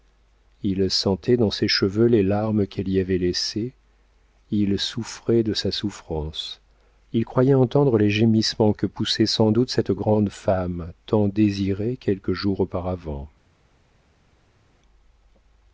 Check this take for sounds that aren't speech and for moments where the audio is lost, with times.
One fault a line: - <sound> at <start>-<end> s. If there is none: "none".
none